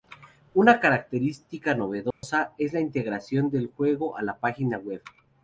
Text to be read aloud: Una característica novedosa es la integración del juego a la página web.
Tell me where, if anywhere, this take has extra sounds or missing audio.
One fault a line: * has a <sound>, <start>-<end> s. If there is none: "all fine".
* has a dropout, 2.1-2.2 s